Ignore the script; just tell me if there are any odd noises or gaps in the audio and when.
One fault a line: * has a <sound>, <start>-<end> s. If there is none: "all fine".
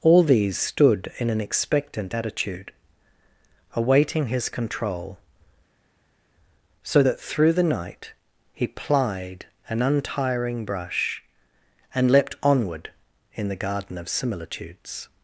all fine